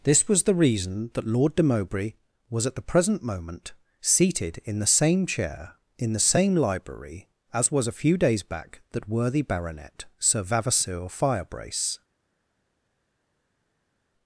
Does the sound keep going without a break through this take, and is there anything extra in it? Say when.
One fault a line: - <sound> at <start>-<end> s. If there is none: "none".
none